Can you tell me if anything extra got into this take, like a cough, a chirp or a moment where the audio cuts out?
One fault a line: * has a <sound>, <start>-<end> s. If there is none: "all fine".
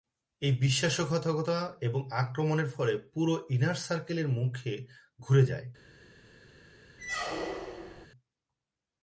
* has a squeak, 7.0-8.1 s